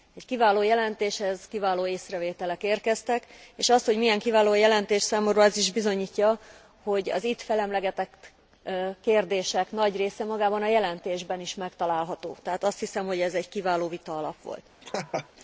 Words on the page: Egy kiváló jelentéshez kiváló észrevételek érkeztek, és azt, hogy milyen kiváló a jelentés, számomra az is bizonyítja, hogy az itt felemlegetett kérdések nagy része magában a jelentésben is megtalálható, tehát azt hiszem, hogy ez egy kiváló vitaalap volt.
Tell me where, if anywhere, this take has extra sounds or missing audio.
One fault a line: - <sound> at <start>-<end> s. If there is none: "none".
- laugh at 14.8-15.3 s